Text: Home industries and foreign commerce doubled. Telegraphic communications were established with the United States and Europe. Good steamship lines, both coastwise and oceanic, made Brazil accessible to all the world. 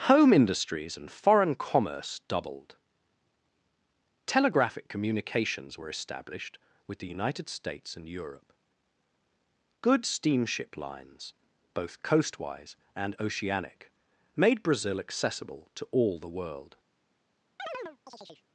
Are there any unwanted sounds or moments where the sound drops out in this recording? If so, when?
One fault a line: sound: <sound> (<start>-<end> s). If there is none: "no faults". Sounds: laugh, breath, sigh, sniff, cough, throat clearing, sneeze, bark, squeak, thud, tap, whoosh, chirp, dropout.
sound: chirp (17.6-18.4 s)